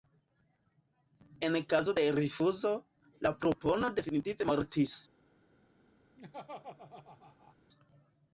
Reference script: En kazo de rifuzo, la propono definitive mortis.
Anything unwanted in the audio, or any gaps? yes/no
yes